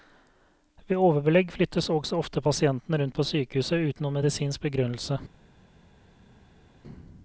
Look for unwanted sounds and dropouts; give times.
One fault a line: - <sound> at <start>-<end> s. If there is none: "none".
none